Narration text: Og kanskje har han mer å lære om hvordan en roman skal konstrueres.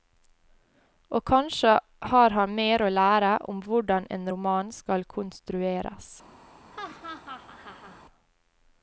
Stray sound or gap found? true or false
true